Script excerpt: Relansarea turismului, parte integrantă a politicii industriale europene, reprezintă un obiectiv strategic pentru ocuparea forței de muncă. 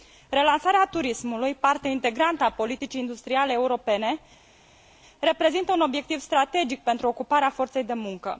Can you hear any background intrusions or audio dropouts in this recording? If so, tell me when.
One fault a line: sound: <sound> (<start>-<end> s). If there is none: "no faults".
no faults